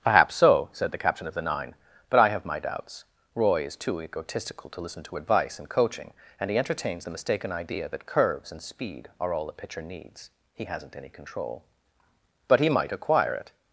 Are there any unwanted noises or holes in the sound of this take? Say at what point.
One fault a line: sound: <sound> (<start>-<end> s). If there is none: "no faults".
no faults